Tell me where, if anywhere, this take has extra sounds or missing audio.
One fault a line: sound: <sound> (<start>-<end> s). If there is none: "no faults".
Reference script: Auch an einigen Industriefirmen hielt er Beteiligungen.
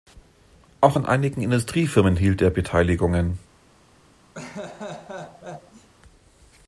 sound: laugh (4.3-5.9 s)